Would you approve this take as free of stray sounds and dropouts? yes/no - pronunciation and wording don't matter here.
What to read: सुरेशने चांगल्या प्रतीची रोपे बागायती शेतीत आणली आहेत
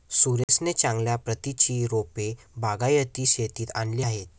no